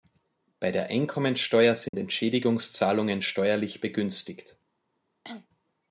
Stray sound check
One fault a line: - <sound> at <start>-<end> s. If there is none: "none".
- dropout at 1.9-1.9 s
- cough at 5.2-5.5 s